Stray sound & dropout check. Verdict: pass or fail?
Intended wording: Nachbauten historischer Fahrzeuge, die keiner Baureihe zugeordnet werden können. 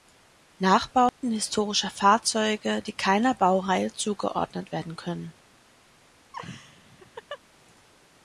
fail